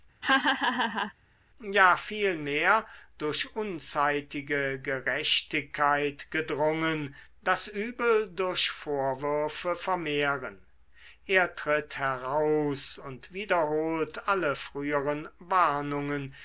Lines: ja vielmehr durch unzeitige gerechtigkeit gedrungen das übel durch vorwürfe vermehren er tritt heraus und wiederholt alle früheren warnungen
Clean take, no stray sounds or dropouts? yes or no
no